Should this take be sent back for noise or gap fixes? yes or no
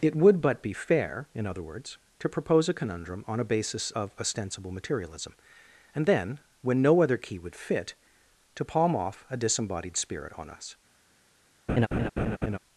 yes